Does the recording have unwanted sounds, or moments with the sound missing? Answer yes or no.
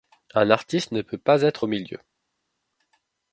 no